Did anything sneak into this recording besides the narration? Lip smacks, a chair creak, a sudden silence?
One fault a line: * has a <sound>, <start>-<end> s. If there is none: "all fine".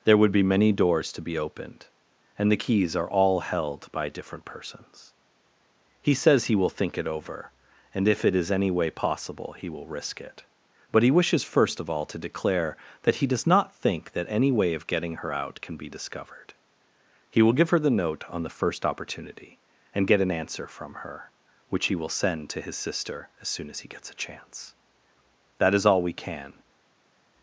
all fine